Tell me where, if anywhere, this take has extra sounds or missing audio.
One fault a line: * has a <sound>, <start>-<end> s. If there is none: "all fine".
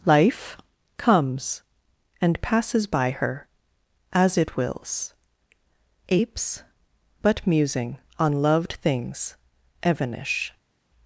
all fine